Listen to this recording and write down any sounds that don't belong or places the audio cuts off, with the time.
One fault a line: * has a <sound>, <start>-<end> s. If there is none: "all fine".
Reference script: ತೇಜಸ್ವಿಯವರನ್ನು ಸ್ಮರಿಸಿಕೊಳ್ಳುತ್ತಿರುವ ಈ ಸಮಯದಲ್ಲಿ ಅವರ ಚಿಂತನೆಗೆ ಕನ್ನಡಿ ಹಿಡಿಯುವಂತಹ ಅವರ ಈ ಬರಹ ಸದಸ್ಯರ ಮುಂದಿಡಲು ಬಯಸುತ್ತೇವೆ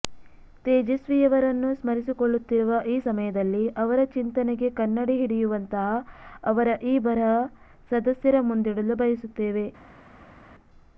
all fine